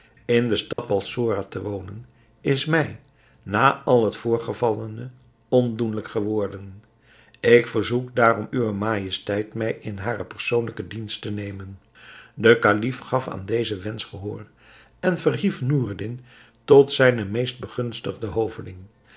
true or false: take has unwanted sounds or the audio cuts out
true